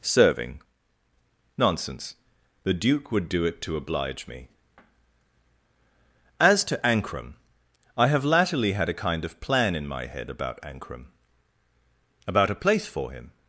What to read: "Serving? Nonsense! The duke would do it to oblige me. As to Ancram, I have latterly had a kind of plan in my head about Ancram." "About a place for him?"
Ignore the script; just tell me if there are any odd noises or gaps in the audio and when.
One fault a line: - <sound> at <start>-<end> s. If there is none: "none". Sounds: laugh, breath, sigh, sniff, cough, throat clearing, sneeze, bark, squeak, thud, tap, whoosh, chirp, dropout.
none